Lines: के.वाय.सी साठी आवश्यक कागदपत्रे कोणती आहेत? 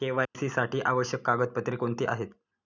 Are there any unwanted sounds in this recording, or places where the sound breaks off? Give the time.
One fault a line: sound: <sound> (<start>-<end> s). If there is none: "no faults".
sound: dropout (0.2-0.3 s)